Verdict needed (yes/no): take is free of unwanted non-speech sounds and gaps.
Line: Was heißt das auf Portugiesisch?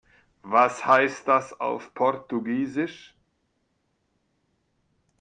yes